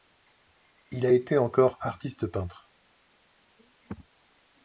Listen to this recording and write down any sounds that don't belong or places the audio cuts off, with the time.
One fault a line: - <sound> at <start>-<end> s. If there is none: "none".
none